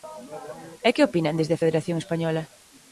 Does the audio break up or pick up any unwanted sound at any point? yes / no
no